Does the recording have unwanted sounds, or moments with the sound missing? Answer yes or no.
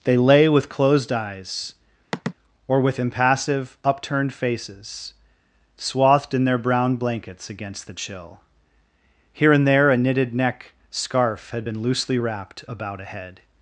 yes